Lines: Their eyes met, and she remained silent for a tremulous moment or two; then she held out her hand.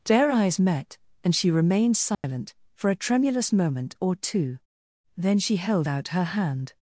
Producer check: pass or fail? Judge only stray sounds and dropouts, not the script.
fail